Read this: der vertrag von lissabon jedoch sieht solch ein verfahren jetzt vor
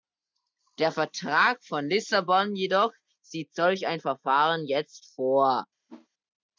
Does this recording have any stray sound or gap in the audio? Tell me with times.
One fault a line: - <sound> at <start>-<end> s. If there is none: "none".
- whoosh at 5.9-6.1 s